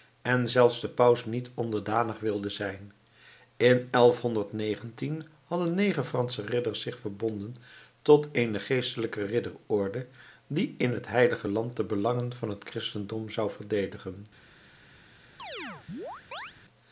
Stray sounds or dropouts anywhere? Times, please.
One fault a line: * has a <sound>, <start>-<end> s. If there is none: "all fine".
* has a chirp, 15.4-16.5 s